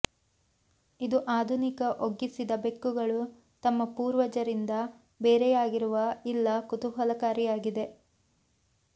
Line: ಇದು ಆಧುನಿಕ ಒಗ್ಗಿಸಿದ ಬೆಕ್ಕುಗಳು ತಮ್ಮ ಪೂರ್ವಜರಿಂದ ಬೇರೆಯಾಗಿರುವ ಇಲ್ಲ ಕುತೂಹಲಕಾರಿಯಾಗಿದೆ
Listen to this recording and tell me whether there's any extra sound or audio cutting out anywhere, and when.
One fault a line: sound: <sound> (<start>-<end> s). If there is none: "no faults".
no faults